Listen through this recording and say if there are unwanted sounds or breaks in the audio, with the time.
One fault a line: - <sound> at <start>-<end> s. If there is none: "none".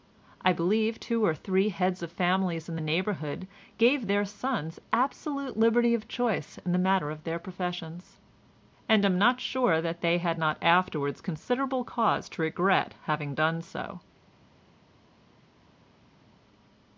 none